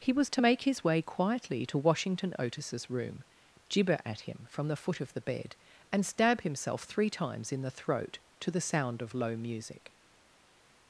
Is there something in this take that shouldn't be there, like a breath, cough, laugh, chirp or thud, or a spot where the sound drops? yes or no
no